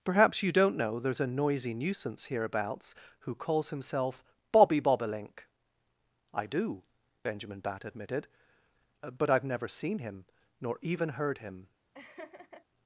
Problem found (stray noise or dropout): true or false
true